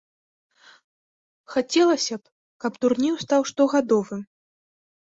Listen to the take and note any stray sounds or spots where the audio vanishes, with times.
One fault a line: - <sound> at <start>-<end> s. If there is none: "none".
none